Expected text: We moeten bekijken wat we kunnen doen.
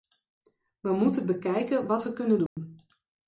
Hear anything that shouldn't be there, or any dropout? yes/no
yes